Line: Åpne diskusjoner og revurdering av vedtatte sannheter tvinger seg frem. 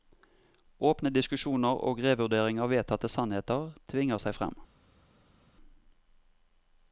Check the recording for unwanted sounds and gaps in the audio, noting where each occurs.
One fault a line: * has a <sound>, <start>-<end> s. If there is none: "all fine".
all fine